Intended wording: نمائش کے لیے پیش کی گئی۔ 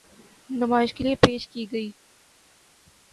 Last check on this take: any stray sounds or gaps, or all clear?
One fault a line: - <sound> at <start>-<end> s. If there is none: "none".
none